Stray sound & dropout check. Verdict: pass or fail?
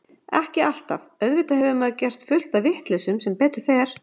pass